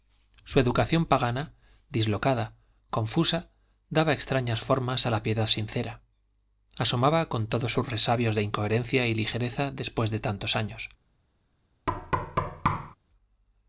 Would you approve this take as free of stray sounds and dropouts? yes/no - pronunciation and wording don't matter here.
no